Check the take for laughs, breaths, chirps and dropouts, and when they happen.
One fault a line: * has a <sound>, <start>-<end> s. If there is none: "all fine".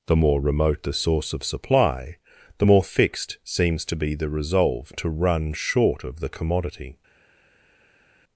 all fine